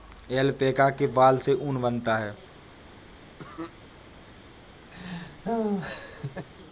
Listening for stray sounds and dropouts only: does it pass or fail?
fail